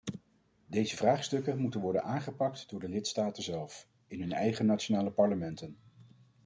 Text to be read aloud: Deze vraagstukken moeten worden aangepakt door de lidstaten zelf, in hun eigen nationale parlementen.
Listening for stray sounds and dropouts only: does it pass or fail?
pass